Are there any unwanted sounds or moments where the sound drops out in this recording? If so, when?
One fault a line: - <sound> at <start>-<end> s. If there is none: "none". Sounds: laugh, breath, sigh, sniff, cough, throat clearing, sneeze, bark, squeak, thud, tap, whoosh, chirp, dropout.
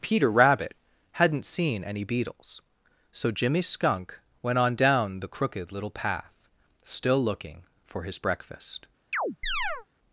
- chirp at 9.1-9.9 s